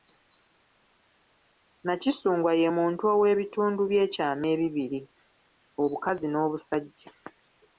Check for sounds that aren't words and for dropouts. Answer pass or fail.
pass